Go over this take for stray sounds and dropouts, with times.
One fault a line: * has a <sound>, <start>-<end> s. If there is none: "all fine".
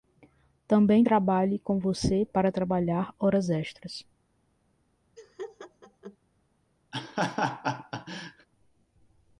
* has a laugh, 5.2-6.2 s
* has a laugh, 6.9-8.5 s